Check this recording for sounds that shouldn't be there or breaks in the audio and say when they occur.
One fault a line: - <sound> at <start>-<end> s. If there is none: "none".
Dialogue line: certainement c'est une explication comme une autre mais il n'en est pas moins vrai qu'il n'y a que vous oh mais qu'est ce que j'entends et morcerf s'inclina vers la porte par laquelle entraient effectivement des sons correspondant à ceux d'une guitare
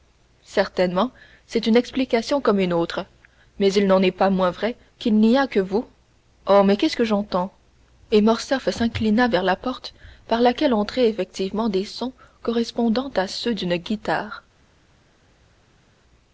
none